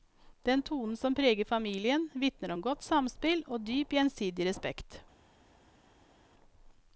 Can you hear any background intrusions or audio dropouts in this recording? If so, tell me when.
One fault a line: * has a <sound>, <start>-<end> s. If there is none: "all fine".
all fine